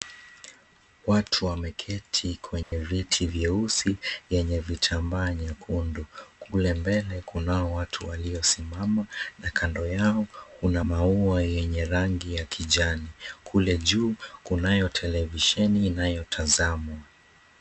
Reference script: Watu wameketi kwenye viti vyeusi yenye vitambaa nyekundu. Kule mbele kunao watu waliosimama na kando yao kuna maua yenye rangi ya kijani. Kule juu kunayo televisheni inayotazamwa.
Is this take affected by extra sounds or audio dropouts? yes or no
yes